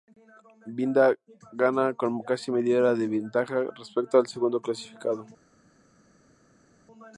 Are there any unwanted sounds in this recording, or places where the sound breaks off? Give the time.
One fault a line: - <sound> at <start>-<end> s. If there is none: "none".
none